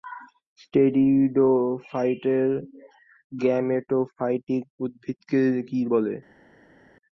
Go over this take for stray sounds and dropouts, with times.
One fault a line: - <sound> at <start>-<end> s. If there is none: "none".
none